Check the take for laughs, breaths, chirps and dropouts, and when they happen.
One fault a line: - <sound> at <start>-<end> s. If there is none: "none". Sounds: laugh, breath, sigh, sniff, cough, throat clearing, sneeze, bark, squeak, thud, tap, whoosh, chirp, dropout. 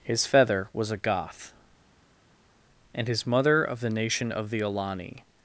none